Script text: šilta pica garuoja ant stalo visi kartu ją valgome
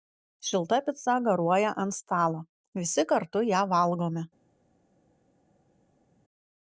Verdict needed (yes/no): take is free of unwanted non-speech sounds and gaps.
yes